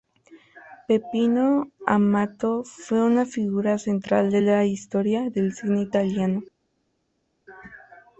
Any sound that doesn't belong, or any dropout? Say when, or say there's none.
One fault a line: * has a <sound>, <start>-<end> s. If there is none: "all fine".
all fine